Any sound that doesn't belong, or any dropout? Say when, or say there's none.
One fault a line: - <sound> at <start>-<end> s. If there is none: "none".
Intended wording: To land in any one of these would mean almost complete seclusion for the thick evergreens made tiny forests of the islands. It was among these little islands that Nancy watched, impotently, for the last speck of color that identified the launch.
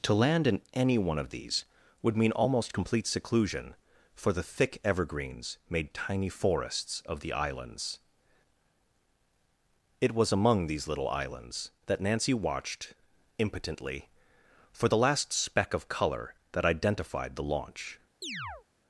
- chirp at 18.2-18.7 s